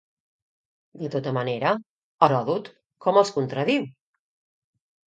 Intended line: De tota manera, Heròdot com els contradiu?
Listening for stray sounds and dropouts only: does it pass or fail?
pass